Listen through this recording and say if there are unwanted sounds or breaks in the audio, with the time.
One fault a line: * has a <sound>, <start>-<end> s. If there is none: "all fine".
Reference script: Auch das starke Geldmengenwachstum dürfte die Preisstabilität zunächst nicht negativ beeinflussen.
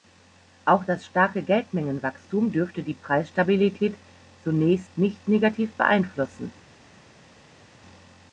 all fine